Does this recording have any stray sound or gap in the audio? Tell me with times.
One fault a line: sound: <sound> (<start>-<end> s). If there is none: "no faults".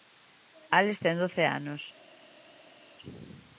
no faults